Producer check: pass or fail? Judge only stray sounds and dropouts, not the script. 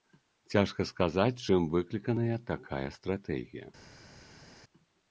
pass